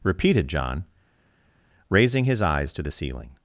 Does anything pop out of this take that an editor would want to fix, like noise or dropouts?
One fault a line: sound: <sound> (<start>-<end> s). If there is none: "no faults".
no faults